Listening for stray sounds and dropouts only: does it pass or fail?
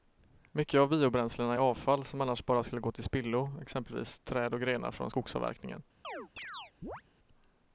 fail